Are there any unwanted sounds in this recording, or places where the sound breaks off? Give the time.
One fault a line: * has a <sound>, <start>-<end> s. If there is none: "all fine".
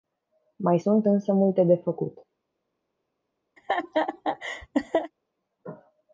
* has a laugh, 3.6-5.1 s